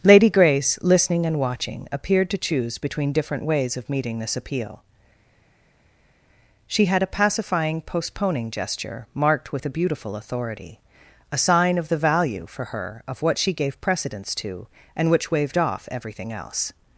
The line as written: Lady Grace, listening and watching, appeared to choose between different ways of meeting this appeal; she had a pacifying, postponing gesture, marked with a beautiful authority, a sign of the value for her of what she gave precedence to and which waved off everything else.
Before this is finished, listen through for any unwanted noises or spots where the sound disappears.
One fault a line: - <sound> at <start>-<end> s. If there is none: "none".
none